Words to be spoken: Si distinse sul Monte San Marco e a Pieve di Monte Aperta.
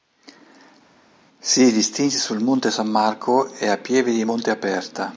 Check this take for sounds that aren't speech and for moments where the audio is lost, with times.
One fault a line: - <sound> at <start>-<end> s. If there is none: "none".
none